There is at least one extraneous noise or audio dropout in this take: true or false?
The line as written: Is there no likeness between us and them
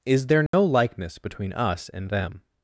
true